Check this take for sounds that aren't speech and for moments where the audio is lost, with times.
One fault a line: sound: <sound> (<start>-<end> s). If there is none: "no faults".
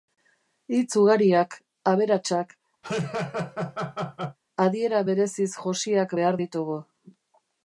sound: laugh (2.8-4.4 s)